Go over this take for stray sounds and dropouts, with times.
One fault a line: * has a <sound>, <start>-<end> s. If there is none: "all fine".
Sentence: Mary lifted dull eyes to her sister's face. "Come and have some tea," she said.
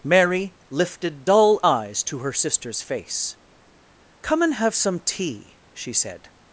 all fine